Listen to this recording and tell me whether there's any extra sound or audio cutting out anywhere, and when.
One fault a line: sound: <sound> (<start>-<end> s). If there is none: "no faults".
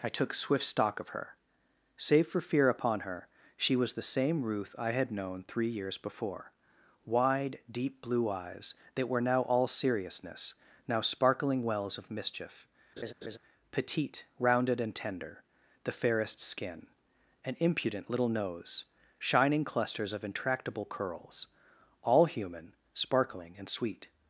sound: laugh (13.0-13.4 s)